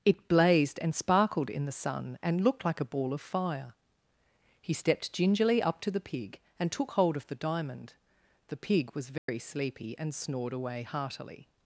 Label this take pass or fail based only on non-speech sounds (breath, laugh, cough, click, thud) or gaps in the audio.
fail